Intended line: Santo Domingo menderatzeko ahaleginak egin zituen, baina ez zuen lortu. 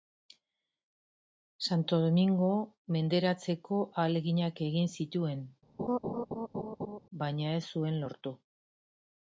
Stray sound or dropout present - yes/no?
yes